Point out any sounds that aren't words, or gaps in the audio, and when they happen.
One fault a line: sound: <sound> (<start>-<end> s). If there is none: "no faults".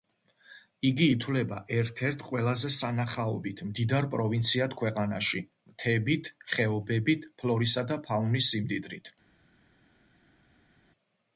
no faults